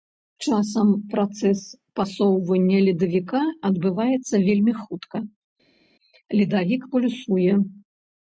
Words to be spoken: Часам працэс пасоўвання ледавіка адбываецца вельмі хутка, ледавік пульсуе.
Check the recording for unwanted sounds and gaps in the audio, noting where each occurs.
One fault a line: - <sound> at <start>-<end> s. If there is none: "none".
none